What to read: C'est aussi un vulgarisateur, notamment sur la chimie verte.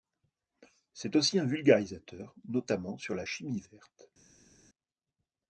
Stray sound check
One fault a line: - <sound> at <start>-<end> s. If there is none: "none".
none